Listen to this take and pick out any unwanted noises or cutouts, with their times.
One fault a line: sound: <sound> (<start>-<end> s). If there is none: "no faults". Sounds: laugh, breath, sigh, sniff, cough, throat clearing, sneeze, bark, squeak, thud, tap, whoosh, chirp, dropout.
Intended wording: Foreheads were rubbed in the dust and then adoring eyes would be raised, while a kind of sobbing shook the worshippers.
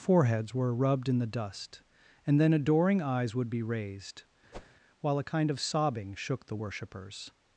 sound: whoosh (4.5-4.8 s)